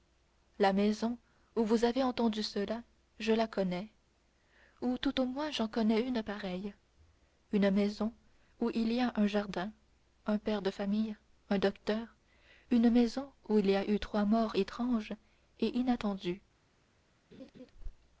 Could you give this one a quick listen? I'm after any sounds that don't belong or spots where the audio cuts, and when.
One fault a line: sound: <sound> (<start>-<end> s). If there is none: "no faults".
sound: laugh (17.3-17.7 s)